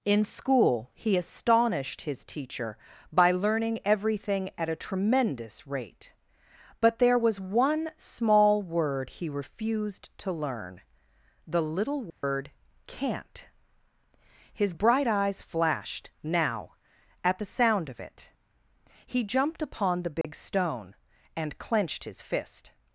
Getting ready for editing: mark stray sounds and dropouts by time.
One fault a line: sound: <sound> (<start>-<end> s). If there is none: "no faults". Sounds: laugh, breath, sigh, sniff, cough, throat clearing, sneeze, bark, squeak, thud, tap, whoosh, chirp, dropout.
sound: dropout (12.1-12.2 s)
sound: dropout (20.2-20.2 s)